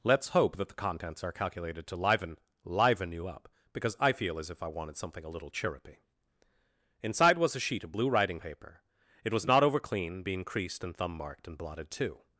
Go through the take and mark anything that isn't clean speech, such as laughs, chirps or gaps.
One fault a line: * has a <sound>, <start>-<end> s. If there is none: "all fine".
all fine